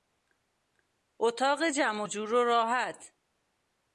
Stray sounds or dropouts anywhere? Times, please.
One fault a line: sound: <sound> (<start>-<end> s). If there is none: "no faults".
no faults